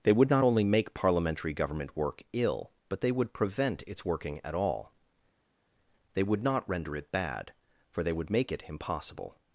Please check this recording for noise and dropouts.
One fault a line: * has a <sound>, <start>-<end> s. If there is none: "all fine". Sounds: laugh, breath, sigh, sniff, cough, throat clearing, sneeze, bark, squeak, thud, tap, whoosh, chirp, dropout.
all fine